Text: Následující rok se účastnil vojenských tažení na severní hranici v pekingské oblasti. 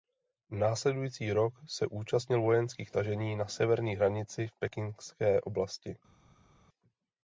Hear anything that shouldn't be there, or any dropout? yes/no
no